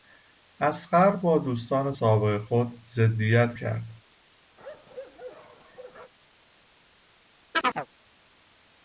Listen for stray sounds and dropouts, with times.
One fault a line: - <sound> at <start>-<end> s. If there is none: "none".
- bark at 4.6-6.1 s
- chirp at 7.5-7.9 s